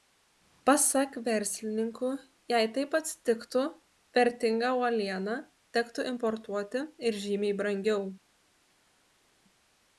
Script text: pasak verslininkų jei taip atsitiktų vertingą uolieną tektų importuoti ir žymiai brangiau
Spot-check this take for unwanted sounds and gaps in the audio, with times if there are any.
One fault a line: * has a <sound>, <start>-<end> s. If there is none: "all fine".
all fine